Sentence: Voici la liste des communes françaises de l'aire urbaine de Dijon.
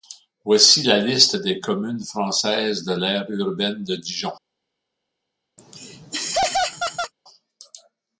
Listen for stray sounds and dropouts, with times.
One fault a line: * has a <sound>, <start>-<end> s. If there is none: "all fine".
* has a laugh, 5.6-7.1 s